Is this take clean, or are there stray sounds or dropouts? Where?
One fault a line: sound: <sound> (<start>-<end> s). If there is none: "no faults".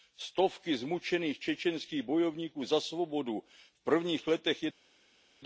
no faults